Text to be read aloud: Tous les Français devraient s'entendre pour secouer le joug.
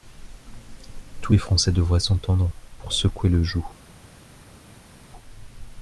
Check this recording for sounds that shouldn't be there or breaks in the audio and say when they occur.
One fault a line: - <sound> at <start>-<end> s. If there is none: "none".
none